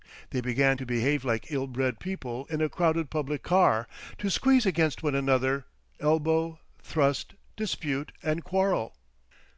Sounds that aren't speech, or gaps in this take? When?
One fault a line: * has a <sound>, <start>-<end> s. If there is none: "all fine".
all fine